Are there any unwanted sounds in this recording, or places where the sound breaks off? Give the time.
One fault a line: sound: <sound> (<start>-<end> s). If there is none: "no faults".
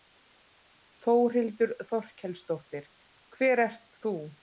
no faults